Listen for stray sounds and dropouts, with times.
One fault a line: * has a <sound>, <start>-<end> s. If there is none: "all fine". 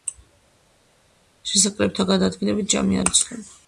all fine